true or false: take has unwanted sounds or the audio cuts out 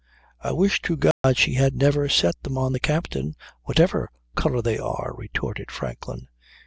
true